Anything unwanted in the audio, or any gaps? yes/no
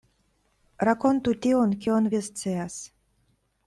no